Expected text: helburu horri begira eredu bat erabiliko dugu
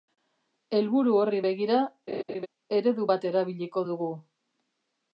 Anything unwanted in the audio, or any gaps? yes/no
yes